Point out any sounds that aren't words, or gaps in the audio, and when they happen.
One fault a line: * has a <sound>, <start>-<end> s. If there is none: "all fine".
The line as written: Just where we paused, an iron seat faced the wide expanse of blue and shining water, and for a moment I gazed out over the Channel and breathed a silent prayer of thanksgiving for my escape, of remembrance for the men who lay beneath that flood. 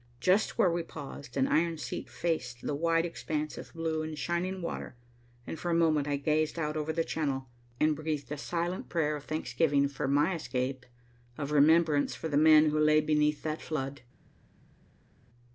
all fine